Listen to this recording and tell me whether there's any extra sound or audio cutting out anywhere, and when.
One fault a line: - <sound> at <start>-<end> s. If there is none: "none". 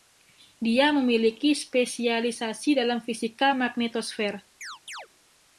- chirp at 4.6-5.1 s